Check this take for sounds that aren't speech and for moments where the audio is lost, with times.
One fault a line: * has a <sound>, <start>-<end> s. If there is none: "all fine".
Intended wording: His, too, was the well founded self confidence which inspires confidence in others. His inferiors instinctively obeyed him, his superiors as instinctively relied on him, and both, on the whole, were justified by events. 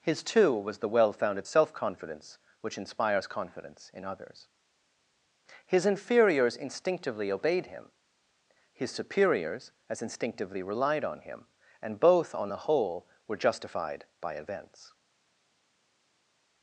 all fine